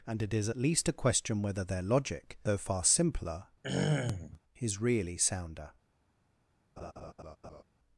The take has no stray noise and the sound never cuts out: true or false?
false